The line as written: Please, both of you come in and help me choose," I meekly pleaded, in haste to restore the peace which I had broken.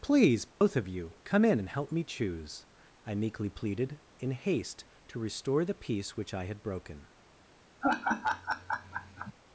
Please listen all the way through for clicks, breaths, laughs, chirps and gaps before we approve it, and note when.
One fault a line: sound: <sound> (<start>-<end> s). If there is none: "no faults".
sound: dropout (0.5-0.6 s)
sound: laugh (7.8-9.3 s)